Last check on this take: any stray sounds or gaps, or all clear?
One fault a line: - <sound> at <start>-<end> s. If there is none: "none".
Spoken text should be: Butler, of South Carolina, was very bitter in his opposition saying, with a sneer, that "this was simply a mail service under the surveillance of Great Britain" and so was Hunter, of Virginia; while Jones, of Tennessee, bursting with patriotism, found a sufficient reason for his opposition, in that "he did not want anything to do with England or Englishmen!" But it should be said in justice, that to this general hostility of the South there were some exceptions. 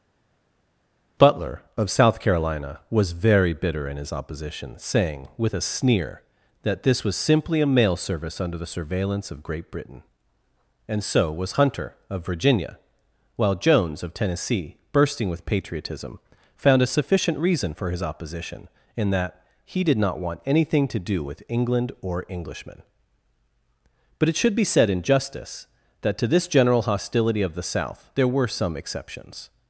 none